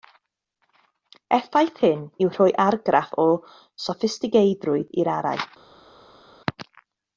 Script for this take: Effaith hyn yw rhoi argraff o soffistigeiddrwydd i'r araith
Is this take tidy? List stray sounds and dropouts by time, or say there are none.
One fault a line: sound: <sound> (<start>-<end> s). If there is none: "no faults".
no faults